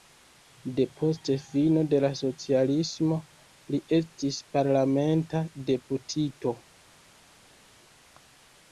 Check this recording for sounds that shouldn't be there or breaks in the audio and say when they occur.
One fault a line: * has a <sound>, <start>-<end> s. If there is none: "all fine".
all fine